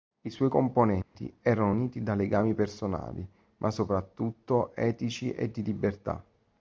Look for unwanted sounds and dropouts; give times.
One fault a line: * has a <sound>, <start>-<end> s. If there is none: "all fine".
* has a dropout, 1.0-1.2 s